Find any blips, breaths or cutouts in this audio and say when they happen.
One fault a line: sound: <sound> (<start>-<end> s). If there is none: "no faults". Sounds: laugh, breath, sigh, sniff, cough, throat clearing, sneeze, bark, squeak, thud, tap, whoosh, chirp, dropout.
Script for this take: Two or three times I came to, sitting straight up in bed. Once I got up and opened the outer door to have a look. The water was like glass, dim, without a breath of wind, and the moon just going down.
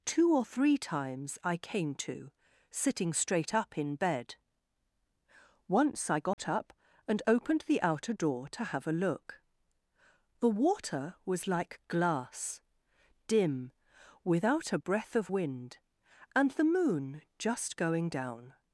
sound: dropout (6.3-6.4 s)